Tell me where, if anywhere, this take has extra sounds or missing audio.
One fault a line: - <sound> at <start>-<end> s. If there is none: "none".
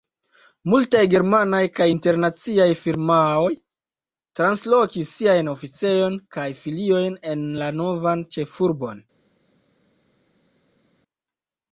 none